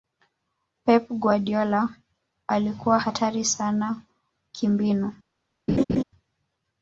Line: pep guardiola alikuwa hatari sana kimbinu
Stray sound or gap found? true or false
true